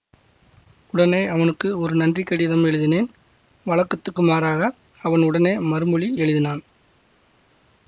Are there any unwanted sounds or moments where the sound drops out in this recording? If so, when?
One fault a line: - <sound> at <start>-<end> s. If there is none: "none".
none